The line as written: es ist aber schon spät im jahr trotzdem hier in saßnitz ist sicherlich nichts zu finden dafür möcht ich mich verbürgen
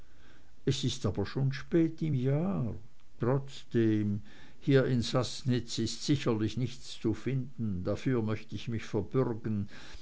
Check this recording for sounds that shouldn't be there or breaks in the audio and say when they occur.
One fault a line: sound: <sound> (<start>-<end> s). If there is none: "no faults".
no faults